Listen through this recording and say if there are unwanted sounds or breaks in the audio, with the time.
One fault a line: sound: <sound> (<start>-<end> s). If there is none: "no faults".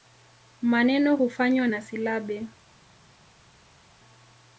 no faults